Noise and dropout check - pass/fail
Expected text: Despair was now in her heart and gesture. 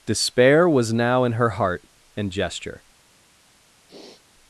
fail